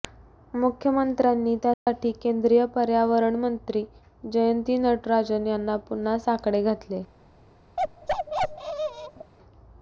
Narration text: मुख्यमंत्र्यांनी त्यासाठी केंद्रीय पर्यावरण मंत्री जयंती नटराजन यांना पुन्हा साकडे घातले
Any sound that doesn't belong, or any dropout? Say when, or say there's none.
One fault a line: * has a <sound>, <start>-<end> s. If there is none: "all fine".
* has a dropout, 1.7-1.9 s
* has a bark, 7.8-9.3 s